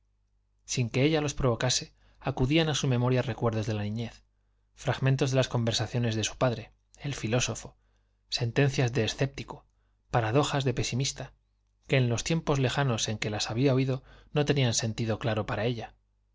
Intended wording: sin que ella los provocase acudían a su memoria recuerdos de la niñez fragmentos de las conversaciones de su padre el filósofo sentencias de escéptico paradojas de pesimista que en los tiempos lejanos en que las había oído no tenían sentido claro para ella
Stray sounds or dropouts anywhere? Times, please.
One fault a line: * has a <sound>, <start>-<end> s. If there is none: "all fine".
all fine